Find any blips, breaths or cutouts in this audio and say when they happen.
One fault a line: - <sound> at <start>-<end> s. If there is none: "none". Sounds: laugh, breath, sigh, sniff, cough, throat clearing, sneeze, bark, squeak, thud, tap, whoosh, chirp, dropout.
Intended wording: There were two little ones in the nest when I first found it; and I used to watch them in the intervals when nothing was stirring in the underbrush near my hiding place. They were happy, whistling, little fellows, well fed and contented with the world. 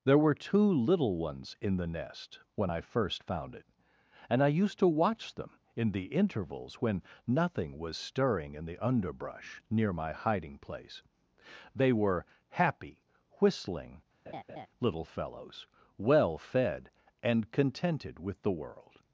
- laugh at 14.3-14.7 s